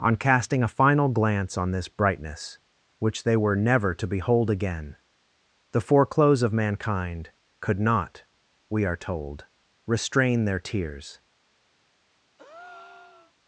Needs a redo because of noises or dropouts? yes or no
yes